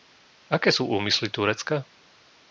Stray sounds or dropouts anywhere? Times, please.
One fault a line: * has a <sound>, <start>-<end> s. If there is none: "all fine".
all fine